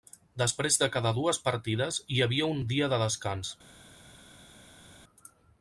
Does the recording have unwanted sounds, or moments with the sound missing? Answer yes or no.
no